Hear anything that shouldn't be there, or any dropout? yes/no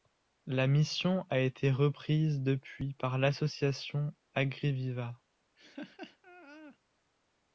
yes